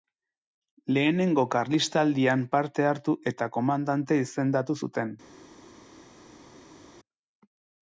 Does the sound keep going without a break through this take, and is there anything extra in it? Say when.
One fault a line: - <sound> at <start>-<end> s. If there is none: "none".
none